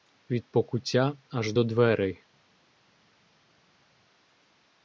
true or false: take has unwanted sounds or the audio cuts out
false